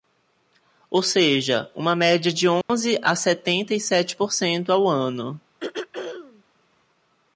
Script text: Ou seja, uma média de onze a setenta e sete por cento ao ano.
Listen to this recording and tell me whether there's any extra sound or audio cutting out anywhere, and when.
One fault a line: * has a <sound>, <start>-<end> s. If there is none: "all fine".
* has a dropout, 2.6-2.7 s
* has a throat clearing, 5.6-6.4 s